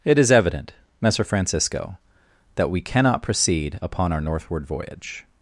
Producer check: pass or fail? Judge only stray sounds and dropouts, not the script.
pass